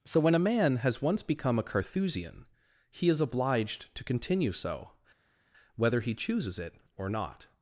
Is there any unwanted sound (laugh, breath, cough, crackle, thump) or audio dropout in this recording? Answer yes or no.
no